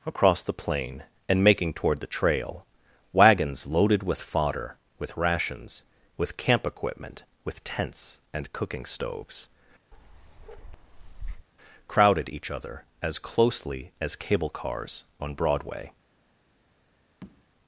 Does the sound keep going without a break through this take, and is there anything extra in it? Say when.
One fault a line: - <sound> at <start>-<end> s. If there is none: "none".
- bark at 9.9-11.5 s
- tap at 17.2-17.5 s